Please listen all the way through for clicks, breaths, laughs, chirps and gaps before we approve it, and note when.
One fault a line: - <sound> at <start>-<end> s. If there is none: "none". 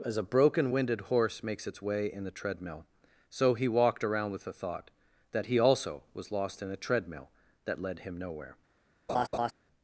- laugh at 9.1-9.5 s